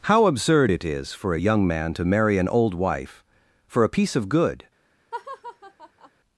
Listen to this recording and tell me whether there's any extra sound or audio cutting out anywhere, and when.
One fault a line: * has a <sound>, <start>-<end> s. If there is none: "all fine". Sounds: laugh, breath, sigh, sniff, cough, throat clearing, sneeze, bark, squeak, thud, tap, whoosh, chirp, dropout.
* has a laugh, 5.1-6.1 s